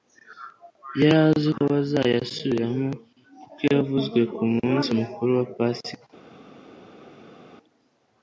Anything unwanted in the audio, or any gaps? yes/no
no